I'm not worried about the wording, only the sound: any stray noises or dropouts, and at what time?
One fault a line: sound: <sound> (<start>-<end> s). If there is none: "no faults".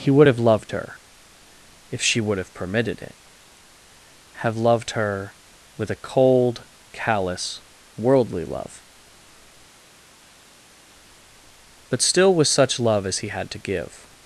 no faults